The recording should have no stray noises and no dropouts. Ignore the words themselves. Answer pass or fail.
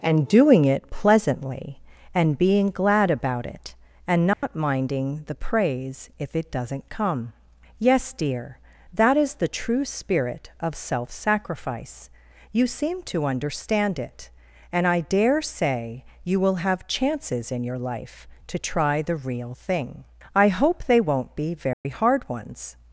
fail